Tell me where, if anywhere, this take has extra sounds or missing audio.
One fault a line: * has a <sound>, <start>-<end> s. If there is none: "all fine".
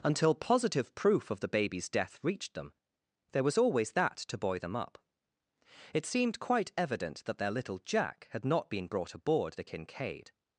all fine